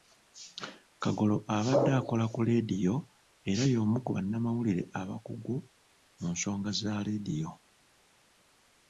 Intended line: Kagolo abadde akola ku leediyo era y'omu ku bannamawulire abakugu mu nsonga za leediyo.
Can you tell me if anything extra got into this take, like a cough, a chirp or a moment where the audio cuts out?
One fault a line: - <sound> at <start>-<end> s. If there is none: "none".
none